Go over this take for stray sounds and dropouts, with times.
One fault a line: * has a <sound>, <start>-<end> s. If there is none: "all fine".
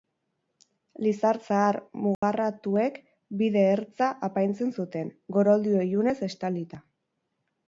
* has a dropout, 2.1-2.2 s